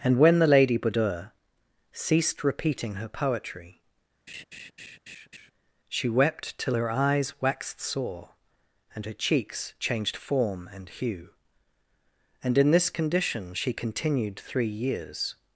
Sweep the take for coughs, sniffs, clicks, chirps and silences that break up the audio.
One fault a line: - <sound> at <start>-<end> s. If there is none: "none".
- laugh at 4.3-5.5 s